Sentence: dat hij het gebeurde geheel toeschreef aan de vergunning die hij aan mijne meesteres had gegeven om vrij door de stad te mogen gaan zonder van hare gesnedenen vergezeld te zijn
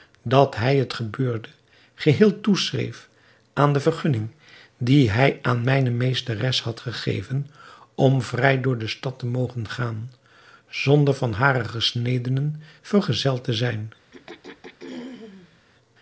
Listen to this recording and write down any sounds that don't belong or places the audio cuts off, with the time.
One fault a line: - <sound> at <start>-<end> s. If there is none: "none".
- throat clearing at 14.1-15.6 s